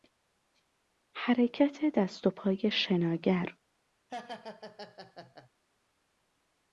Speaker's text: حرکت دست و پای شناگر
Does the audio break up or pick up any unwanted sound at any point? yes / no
yes